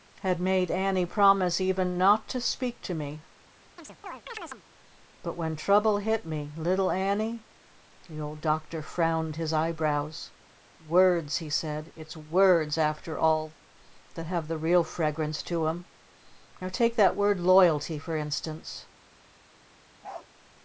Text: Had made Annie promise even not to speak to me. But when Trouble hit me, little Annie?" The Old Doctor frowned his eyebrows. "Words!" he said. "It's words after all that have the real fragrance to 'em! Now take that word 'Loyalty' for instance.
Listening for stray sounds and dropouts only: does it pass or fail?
fail